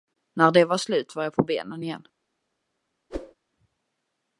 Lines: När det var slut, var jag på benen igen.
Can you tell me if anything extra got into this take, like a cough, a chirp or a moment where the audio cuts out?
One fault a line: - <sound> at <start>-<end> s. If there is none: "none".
- whoosh at 3.1-3.3 s